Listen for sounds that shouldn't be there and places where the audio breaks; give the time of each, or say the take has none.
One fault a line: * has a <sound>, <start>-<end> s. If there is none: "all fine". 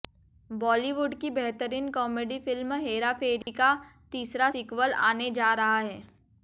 * has a dropout, 3.4-3.5 s